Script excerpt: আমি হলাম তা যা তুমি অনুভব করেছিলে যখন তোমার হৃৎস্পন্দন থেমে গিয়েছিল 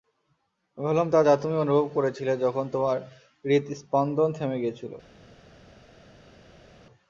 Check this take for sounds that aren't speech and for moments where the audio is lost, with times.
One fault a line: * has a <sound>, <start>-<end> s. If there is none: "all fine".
all fine